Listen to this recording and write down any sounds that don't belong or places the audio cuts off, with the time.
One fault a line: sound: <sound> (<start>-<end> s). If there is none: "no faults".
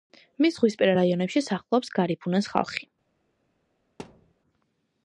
sound: thud (4.0-4.3 s)